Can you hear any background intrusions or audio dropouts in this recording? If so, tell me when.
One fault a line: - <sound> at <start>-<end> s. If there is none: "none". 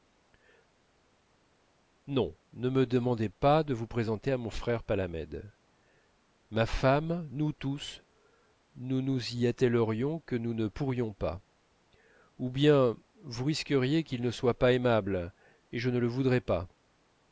none